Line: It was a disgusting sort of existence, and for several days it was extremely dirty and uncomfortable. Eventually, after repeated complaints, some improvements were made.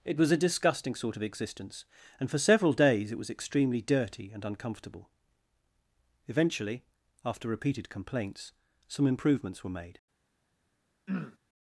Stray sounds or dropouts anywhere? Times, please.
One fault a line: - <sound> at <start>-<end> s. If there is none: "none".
- throat clearing at 11.1-11.4 s